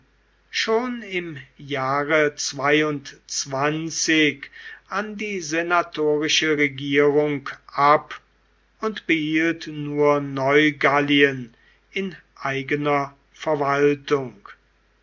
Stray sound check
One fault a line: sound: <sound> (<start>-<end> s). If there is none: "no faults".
no faults